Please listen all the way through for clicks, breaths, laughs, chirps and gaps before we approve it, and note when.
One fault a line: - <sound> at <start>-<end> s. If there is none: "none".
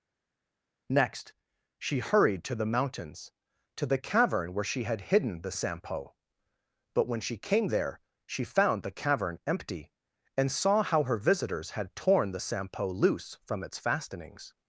none